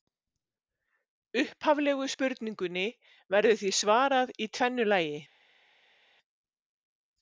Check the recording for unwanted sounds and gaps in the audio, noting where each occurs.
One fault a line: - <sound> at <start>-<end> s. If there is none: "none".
none